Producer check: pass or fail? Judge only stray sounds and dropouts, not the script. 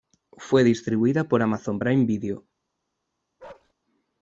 fail